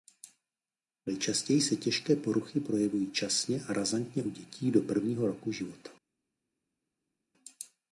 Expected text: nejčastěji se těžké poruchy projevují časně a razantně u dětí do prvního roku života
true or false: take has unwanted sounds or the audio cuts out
false